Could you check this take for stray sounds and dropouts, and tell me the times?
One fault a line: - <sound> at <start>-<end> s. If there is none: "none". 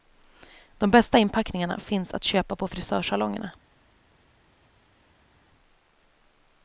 none